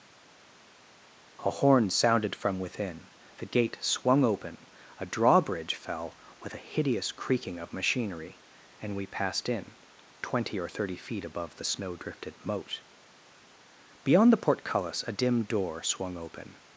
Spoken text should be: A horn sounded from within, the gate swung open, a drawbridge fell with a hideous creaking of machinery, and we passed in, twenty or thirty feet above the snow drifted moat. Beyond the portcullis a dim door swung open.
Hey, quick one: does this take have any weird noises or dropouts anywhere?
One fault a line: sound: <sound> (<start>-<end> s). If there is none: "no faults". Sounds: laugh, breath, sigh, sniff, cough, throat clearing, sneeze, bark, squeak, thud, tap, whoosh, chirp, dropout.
no faults